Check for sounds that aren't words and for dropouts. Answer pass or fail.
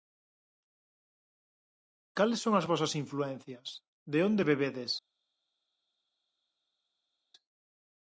pass